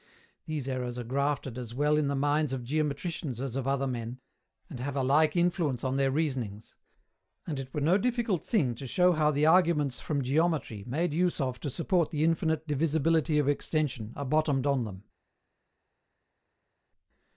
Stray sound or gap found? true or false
false